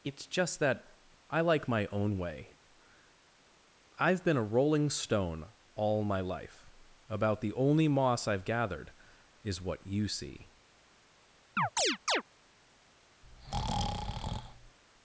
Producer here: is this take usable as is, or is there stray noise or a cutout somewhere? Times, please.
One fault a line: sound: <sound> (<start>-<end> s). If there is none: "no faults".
sound: chirp (11.6-12.2 s)
sound: breath (13.2-14.8 s)